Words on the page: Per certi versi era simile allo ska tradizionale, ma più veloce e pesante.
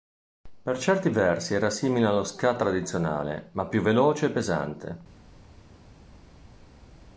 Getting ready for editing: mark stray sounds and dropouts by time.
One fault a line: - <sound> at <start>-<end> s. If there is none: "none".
none